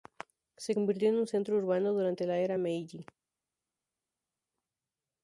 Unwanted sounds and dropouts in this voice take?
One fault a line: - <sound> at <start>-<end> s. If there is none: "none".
none